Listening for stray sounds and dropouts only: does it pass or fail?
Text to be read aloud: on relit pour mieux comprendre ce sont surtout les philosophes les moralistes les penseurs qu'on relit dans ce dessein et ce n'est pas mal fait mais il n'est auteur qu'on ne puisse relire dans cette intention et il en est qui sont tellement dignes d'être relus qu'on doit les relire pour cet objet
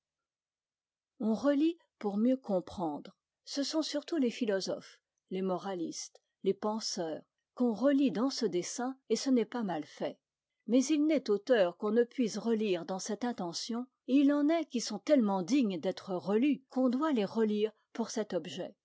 pass